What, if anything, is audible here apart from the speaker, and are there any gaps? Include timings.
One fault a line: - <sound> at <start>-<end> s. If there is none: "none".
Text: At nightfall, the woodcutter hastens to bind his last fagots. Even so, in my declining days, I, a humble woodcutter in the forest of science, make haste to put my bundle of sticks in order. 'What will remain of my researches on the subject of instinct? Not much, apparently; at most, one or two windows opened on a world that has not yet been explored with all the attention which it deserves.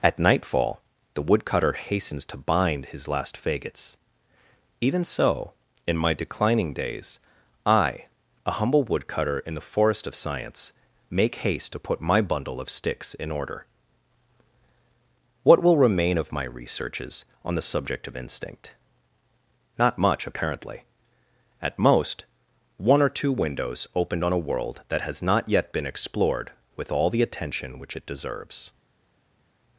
none